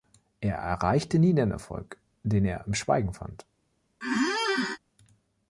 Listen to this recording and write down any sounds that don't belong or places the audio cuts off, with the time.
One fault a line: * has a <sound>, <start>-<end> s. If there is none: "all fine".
* has a squeak, 4.0-4.8 s